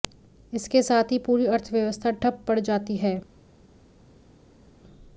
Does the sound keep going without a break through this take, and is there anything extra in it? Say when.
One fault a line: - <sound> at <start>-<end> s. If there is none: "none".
none